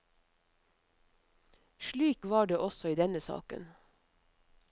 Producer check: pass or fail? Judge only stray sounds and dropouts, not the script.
pass